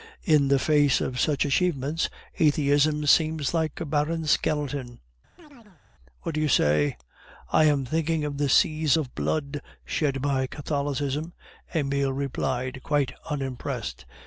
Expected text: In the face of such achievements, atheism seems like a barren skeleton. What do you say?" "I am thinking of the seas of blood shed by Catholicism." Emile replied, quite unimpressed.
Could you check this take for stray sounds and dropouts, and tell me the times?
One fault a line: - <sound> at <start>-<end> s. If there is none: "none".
- chirp at 5.4-5.8 s